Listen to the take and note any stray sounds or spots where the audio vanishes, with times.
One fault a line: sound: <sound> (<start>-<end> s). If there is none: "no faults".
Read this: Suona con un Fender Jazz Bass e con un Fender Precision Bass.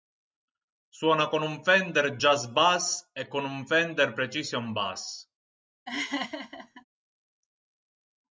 sound: laugh (5.9-6.8 s)